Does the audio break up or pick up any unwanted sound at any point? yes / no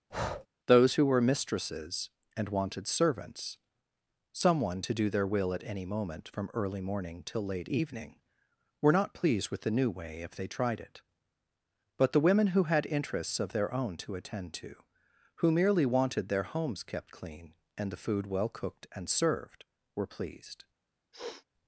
yes